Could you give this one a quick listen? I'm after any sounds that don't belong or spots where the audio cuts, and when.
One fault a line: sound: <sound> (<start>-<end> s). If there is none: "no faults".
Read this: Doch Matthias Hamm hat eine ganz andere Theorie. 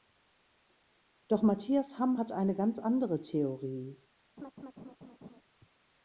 sound: laugh (4.4-5.4 s)